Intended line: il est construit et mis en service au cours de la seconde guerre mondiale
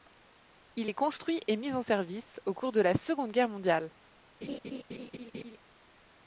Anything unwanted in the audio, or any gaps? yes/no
yes